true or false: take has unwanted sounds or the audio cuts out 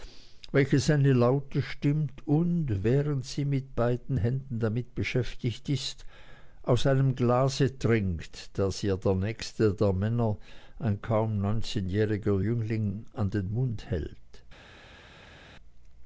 false